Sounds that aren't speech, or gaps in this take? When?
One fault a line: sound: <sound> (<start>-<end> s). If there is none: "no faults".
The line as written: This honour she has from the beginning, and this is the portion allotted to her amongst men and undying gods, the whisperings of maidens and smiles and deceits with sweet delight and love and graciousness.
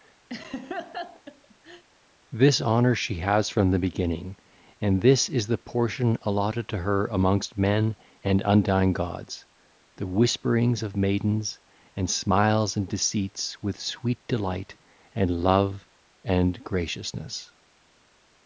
sound: laugh (0.3-1.8 s)